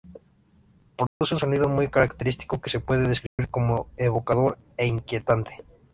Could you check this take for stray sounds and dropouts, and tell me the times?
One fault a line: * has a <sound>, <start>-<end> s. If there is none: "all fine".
* has a dropout, 1.1-1.2 s
* has a dropout, 3.3-3.4 s